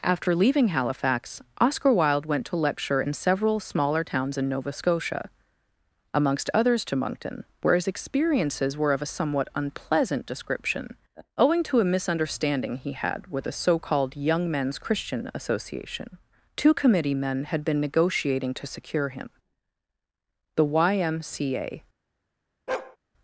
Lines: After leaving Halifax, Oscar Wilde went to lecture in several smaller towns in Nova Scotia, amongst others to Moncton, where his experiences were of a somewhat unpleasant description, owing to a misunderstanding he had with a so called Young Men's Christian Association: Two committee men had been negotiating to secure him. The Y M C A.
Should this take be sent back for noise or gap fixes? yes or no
yes